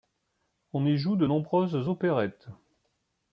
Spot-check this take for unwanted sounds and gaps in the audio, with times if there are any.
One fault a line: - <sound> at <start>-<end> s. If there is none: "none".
none